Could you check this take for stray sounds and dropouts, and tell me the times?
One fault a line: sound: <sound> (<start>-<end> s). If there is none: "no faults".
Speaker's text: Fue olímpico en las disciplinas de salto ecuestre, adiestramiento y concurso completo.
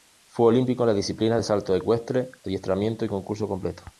no faults